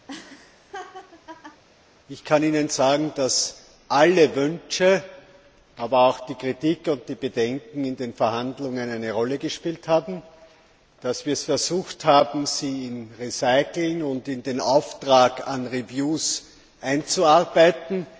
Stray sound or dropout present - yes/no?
yes